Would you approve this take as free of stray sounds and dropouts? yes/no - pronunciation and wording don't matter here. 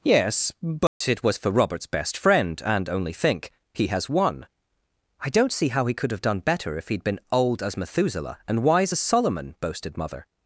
no